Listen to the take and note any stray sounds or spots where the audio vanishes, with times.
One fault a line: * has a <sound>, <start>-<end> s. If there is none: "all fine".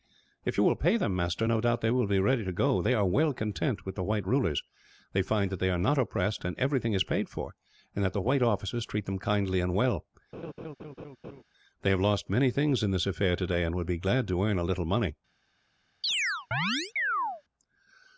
* has a laugh, 10.3-11.4 s
* has a chirp, 16.0-17.4 s